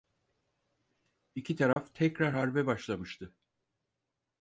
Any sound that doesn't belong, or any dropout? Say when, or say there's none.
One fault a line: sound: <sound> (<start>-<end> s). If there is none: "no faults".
sound: dropout (1.7-1.8 s)